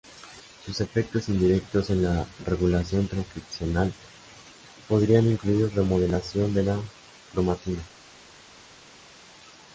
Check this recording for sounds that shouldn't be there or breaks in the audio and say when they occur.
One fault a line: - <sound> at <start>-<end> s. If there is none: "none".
none